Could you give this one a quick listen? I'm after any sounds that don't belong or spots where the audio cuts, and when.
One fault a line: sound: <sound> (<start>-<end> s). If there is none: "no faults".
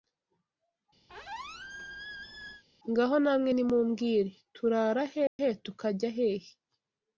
sound: squeak (1.1-2.6 s)
sound: dropout (5.3-5.4 s)